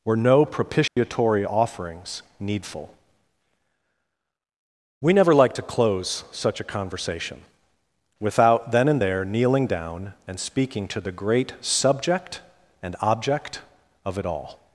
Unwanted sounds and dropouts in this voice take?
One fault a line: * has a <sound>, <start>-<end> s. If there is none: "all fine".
* has a dropout, 0.9-1.0 s